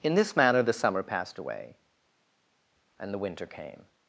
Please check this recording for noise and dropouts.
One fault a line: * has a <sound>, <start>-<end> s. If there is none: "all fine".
all fine